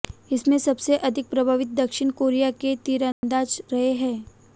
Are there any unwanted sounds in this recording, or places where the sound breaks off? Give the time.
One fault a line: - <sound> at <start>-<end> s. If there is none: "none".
- dropout at 3.1-3.2 s